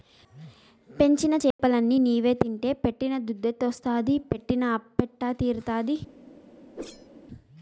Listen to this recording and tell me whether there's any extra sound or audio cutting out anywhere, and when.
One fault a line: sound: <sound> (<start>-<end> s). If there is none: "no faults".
sound: dropout (1.5-1.6 s)
sound: whoosh (6.7-7.1 s)